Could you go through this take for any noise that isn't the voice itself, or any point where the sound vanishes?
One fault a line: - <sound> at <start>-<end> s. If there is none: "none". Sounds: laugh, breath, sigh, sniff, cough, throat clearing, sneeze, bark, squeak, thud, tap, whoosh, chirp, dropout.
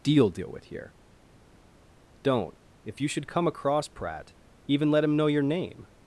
none